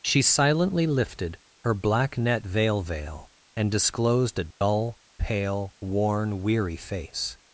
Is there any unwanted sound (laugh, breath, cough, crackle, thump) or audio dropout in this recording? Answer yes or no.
yes